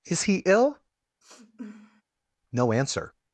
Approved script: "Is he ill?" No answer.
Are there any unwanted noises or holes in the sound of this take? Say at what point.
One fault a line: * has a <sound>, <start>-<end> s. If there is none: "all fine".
* has a sniff, 1.2-2.0 s